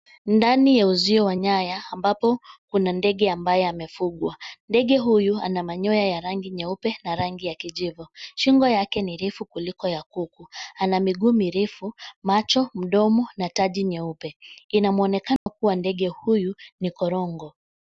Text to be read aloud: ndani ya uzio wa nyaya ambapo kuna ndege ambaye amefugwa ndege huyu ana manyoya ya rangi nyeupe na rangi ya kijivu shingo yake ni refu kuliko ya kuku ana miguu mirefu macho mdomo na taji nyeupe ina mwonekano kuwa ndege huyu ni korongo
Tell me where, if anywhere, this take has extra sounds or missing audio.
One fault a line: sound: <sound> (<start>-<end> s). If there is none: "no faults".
sound: dropout (15.4-15.5 s)